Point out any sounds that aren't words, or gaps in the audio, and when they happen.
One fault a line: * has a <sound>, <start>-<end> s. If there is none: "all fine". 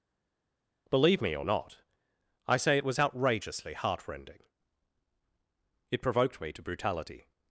all fine